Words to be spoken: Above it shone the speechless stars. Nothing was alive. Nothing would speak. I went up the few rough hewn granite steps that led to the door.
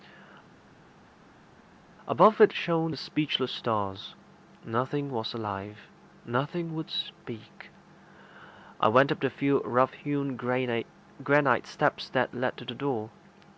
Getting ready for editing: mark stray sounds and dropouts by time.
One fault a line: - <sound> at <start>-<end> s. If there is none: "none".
none